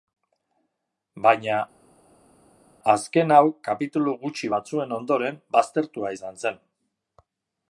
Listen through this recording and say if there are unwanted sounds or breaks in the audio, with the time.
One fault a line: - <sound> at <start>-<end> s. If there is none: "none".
none